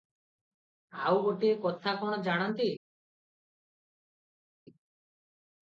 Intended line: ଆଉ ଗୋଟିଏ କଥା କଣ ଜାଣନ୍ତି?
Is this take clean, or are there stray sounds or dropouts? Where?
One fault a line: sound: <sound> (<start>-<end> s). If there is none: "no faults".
no faults